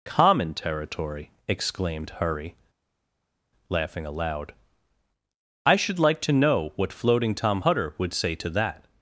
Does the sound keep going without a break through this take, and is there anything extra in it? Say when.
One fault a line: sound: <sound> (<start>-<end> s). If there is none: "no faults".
no faults